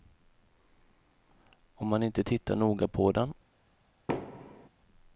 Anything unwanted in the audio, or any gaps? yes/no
yes